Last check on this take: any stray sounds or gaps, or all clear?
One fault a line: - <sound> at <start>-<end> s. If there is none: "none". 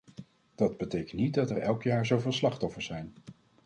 none